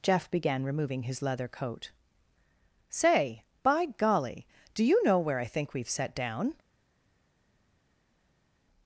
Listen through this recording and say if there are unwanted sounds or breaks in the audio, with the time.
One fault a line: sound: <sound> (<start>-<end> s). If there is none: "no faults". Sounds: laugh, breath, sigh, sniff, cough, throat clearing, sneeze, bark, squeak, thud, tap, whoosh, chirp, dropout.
no faults